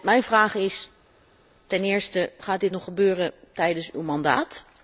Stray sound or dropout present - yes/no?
no